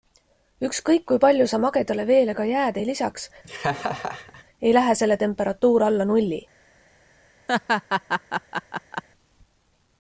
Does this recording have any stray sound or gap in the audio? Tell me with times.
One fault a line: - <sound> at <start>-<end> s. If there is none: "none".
- laugh at 3.4-4.4 s
- laugh at 7.5-9.0 s